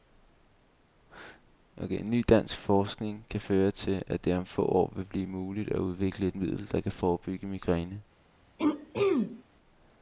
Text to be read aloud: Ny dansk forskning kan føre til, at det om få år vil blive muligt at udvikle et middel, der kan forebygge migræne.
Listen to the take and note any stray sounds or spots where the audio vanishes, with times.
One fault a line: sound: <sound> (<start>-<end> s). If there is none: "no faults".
sound: throat clearing (8.6-9.4 s)